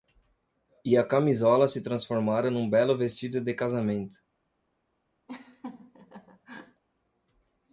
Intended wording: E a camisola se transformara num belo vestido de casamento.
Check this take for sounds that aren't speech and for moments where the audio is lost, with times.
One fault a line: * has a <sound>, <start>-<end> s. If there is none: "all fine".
* has a laugh, 5.3-6.8 s